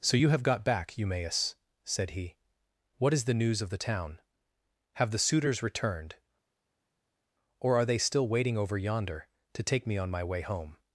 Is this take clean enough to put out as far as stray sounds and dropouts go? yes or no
yes